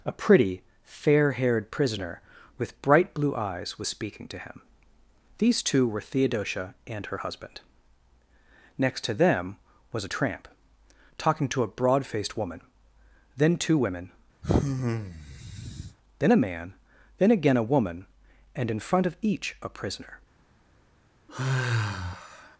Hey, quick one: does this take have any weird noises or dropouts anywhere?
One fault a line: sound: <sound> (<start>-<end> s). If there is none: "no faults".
sound: sigh (14.4-16.0 s)
sound: sigh (21.3-22.6 s)